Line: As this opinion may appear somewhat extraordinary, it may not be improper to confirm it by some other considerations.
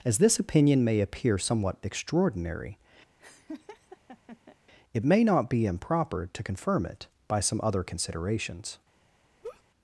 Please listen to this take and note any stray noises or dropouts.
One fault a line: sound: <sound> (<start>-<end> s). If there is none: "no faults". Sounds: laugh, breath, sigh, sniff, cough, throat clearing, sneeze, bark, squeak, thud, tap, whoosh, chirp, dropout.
sound: laugh (3.2-4.6 s)
sound: laugh (9.4-9.6 s)